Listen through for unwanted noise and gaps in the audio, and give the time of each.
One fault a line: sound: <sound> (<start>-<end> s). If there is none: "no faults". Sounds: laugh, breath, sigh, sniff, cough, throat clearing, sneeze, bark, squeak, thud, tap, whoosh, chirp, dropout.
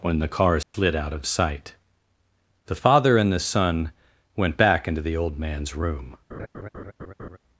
sound: dropout (0.6-0.7 s)
sound: laugh (6.3-7.4 s)